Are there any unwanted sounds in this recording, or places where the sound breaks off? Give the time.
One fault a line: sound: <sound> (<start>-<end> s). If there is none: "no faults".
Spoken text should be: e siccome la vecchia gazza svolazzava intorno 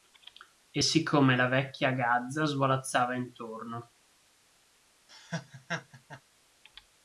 sound: laugh (5.1-6.2 s)